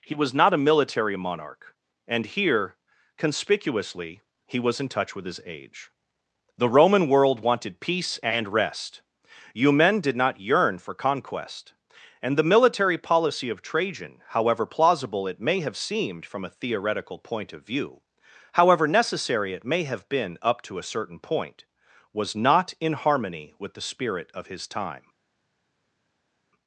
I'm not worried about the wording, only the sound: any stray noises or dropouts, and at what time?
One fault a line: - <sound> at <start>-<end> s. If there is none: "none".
none